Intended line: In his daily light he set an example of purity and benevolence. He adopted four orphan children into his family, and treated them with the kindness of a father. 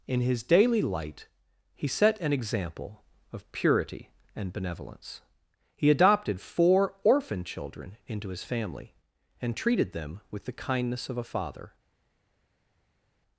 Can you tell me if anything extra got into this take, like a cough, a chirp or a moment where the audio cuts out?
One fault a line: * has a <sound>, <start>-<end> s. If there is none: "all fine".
all fine